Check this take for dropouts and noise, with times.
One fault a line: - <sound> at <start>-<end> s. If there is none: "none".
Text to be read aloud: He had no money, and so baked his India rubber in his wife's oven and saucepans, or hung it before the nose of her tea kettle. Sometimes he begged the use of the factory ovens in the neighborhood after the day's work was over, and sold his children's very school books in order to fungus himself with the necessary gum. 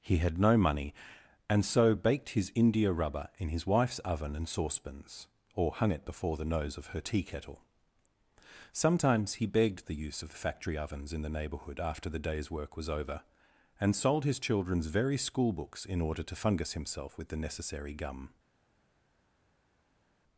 none